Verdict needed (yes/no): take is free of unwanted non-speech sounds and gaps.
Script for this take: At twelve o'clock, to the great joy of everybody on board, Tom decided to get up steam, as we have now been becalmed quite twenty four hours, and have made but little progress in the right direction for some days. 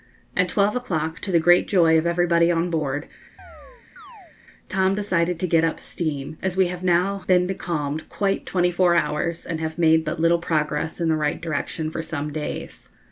no